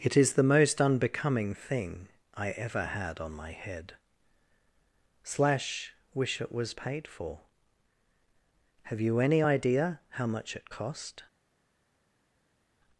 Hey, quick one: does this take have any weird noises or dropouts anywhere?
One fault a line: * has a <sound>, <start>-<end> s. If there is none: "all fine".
all fine